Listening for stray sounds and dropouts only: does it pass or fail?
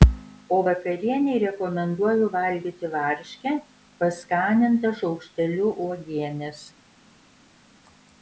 pass